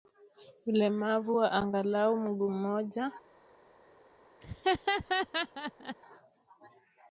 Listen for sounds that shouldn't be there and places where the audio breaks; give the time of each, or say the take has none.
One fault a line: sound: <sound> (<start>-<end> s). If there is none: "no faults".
sound: laugh (4.4-6.0 s)